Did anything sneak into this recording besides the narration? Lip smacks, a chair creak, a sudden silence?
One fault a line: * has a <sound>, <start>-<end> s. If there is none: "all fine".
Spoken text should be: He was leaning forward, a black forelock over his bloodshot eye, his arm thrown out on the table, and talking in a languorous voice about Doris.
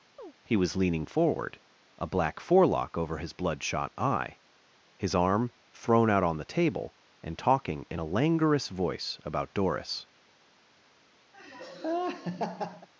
* has a chirp, 0.2-0.3 s
* has a laugh, 11.3-12.9 s